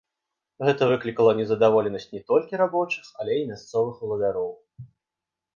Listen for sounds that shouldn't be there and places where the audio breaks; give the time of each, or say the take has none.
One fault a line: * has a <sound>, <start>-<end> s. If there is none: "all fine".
all fine